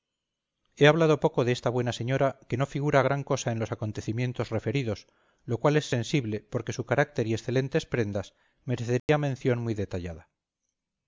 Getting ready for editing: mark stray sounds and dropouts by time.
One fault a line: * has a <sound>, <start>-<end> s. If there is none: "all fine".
* has a dropout, 9.0-9.1 s